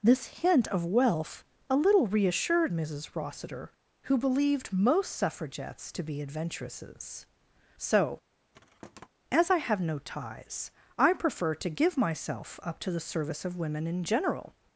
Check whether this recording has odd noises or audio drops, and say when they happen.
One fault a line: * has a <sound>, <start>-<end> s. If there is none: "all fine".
* has a thud, 8.5-9.1 s